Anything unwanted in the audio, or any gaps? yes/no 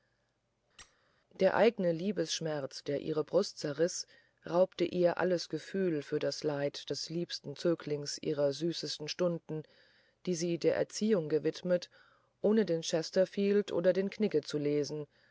yes